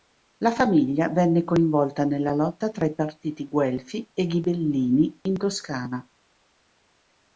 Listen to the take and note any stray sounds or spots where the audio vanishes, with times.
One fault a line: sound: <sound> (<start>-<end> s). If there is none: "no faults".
no faults